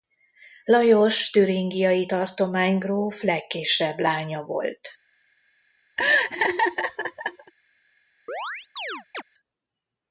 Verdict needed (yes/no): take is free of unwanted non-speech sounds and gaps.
no